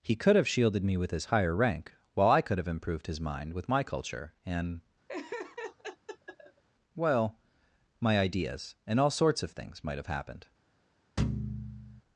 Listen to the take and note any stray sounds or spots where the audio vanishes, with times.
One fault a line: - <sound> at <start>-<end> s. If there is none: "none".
- laugh at 5.1-6.6 s
- thud at 11.2-12.0 s